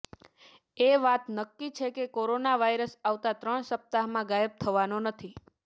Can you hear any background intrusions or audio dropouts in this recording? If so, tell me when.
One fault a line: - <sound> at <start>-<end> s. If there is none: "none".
none